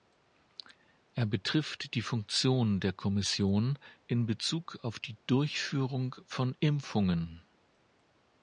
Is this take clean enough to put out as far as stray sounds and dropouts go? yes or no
yes